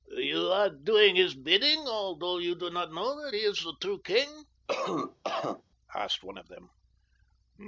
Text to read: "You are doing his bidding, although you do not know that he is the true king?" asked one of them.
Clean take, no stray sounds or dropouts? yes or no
no